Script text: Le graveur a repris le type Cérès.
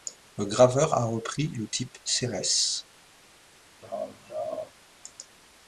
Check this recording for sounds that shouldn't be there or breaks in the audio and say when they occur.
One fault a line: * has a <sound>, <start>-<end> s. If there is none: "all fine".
* has a laugh, 3.8-4.7 s